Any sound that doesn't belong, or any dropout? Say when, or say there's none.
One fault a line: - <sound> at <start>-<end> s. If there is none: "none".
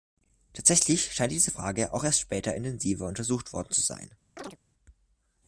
- chirp at 4.4-4.6 s